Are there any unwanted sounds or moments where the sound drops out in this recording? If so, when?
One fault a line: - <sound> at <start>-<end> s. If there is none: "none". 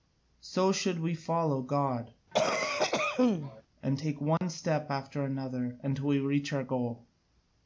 - cough at 2.3-3.6 s
- dropout at 4.4-4.4 s